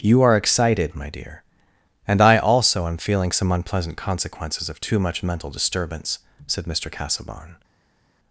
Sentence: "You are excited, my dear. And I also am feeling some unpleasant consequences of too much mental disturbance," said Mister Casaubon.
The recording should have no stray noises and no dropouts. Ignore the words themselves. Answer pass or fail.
pass